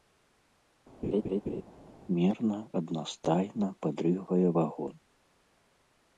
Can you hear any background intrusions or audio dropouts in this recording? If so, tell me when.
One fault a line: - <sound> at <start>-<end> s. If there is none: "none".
- laugh at 1.0-1.6 s